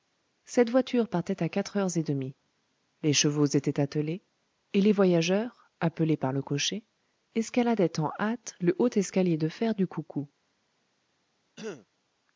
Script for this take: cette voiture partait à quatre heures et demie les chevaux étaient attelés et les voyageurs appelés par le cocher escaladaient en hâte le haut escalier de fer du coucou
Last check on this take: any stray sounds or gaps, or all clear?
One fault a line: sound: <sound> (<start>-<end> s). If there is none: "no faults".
sound: throat clearing (11.6-11.9 s)